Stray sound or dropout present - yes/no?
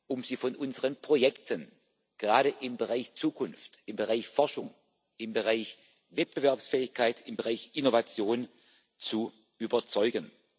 no